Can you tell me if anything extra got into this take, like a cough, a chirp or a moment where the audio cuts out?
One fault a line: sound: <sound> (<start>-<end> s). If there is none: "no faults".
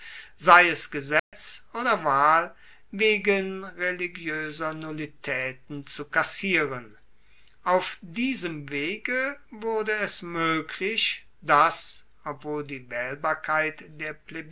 sound: dropout (1.2-1.3 s)